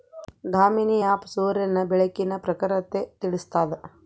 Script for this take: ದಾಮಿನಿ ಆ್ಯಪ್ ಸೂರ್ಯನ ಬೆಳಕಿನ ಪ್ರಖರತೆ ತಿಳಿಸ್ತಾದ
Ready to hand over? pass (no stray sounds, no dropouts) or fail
pass